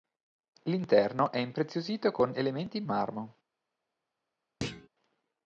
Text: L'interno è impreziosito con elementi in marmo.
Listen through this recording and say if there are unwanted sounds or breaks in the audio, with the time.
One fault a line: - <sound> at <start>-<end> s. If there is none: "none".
- thud at 4.6-4.9 s